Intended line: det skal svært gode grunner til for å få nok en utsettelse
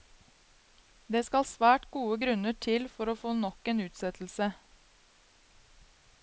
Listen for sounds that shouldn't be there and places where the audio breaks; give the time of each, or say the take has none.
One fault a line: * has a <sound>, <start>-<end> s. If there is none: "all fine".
all fine